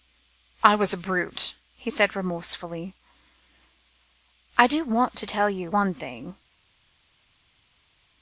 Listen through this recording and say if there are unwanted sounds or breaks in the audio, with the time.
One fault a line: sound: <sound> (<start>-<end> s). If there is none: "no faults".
no faults